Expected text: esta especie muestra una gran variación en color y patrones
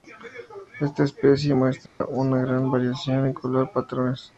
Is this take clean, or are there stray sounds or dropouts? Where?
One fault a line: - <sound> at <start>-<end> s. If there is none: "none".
- dropout at 1.9-2.0 s